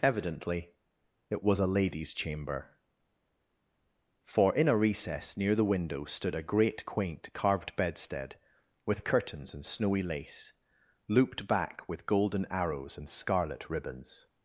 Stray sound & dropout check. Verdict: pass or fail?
pass